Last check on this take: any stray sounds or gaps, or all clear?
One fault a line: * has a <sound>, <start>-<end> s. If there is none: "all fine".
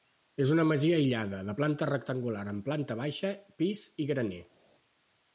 all fine